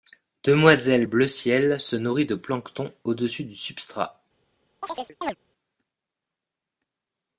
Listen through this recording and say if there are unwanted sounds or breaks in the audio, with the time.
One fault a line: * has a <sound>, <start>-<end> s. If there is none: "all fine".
* has a chirp, 4.8-5.4 s